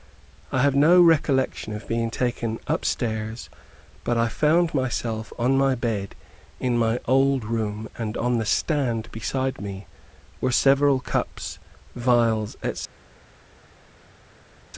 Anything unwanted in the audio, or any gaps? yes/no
no